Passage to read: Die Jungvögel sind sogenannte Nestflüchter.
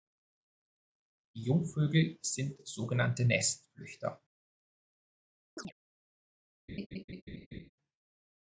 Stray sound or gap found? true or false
true